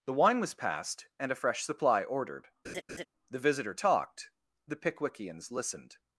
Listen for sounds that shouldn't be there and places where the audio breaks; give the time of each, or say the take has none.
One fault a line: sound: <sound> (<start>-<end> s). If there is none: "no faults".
sound: laugh (2.6-3.1 s)